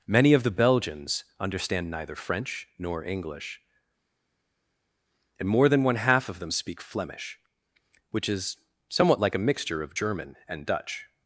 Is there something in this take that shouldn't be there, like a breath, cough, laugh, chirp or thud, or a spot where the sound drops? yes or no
no